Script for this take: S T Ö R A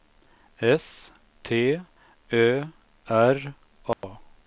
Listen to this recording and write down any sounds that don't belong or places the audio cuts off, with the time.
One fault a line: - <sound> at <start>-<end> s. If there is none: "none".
- dropout at 3.9-4.0 s